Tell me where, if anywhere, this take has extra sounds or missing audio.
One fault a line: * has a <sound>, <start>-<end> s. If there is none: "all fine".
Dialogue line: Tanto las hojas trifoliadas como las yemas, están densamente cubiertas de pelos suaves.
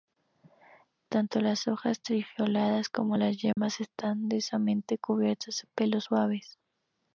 * has a dropout, 3.5-3.6 s